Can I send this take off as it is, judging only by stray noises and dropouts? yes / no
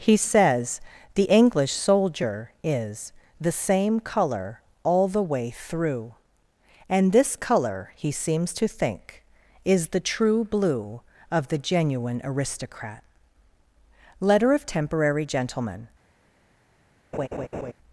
no